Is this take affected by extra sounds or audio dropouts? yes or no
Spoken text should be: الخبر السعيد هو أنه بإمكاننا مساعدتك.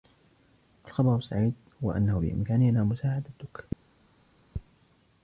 no